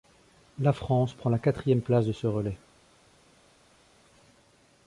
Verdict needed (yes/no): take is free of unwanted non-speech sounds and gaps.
yes